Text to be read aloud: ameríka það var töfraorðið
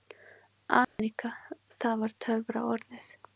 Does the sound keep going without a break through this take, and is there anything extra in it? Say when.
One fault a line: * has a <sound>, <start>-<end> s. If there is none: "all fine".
* has a dropout, 0.8-1.0 s